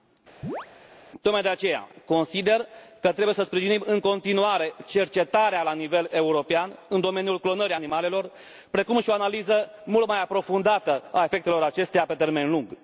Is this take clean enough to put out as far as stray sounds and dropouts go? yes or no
no